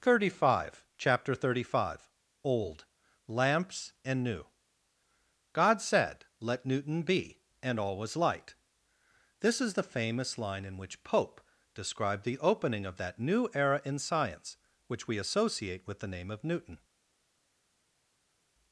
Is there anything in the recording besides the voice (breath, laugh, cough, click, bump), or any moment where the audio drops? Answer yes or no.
no